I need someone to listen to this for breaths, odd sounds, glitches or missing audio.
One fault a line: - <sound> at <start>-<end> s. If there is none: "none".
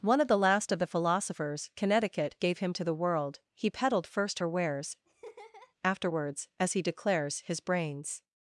- laugh at 5.1-5.7 s